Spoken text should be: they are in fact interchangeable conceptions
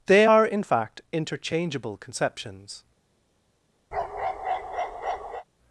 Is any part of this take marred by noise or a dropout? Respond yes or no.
yes